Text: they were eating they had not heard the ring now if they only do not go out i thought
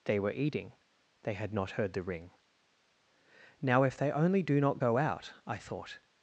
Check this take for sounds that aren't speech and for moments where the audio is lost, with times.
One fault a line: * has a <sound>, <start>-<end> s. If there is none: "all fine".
all fine